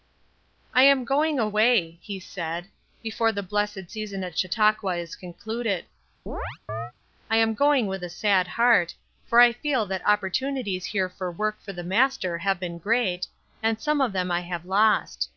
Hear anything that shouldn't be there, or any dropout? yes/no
yes